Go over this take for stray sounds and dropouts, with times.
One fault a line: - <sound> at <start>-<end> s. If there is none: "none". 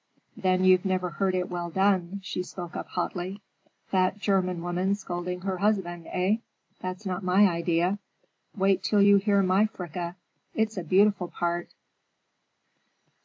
none